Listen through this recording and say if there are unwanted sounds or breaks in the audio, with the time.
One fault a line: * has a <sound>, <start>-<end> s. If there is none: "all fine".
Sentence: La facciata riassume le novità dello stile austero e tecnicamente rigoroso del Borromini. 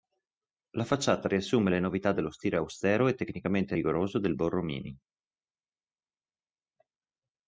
all fine